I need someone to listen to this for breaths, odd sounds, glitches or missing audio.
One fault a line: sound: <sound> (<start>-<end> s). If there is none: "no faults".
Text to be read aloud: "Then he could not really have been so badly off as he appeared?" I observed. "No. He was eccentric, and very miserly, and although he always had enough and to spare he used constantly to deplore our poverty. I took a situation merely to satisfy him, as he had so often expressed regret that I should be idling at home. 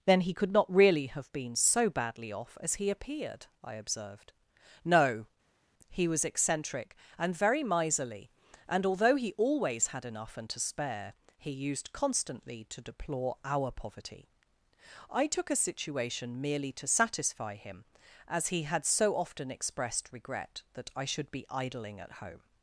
no faults